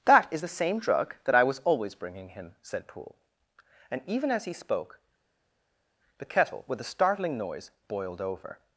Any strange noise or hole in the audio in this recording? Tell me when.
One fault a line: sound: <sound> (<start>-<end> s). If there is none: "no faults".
no faults